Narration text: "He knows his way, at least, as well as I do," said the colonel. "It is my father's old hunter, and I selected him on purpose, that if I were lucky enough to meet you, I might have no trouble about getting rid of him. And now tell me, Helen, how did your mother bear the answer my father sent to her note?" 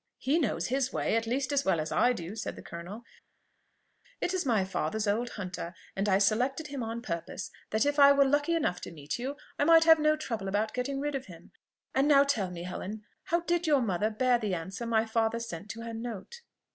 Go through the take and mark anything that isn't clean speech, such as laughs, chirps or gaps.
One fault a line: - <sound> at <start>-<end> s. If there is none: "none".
none